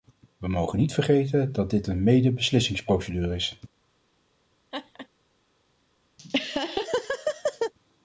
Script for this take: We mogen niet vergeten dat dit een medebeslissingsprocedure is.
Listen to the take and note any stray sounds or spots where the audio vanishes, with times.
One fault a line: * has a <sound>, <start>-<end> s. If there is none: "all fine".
* has a laugh, 4.7-5.1 s
* has a laugh, 6.2-7.7 s